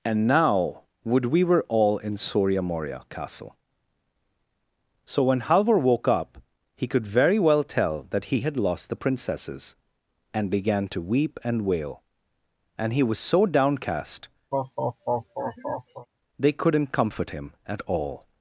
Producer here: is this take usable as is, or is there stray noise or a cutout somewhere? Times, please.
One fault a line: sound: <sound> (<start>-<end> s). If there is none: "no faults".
sound: laugh (14.5-16.1 s)